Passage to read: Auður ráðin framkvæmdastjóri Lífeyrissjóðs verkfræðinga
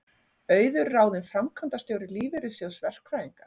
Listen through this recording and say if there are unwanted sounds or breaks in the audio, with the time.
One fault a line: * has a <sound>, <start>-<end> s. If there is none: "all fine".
all fine